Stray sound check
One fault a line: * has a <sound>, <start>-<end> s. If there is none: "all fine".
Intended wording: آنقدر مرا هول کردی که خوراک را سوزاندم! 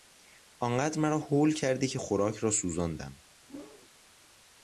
* has a whoosh, 3.5-3.9 s